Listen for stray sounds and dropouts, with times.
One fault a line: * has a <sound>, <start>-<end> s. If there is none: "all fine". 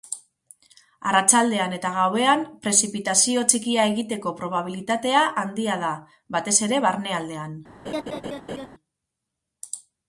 * has a laugh, 7.9-8.7 s